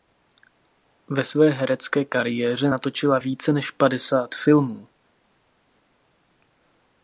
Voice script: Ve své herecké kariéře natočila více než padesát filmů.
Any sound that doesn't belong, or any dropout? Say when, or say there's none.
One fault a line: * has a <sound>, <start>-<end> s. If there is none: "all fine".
all fine